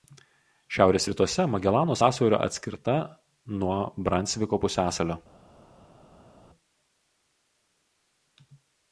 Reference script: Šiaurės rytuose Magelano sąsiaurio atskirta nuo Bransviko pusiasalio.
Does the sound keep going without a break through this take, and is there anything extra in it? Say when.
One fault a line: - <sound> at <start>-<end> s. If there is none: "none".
none